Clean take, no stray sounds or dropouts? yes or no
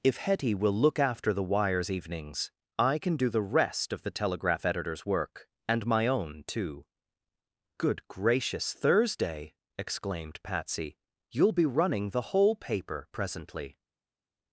yes